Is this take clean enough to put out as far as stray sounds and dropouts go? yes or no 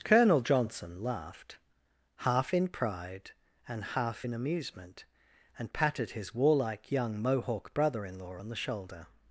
yes